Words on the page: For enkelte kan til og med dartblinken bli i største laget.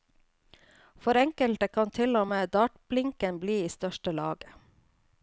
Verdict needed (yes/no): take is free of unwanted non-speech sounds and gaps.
yes